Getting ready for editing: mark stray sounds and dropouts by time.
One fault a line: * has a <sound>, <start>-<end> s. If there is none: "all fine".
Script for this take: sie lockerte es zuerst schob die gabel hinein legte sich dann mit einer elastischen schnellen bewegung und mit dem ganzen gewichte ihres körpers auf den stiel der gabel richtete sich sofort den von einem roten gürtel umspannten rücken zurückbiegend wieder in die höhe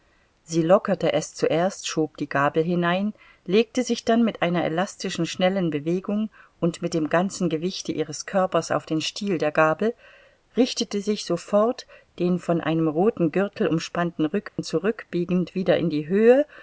* has a dropout, 14.5-14.6 s